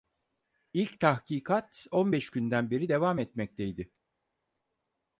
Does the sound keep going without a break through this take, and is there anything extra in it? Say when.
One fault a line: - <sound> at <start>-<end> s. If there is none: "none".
none